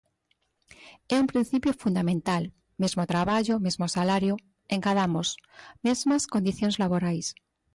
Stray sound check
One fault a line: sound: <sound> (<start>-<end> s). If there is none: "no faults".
no faults